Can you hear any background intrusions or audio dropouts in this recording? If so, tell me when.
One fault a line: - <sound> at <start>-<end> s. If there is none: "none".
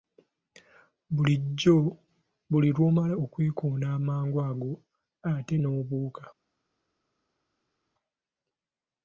none